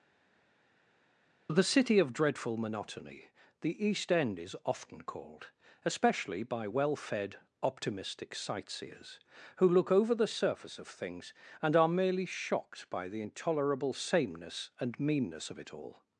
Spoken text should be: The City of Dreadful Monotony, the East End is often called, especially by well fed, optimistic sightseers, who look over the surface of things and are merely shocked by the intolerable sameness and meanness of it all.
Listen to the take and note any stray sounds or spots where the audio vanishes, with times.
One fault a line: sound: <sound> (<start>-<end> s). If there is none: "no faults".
no faults